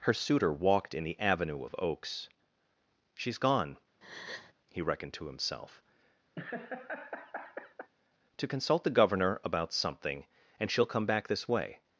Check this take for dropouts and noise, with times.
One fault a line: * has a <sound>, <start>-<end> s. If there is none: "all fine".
* has a breath, 4.0-4.5 s
* has a laugh, 6.3-7.9 s